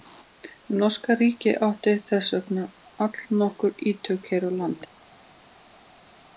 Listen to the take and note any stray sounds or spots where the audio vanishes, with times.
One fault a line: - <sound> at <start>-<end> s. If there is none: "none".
none